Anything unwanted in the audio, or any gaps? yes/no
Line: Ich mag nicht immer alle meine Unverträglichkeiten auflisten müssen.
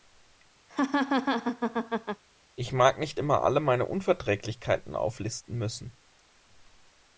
yes